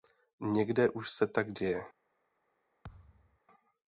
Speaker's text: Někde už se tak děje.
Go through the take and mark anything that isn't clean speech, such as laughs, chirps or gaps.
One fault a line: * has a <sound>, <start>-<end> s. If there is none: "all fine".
* has a thud, 2.8-3.4 s